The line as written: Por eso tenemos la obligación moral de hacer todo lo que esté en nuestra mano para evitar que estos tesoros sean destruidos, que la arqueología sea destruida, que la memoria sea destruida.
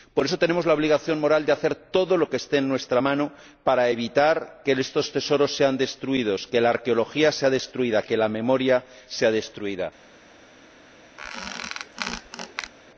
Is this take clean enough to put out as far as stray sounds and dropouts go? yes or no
no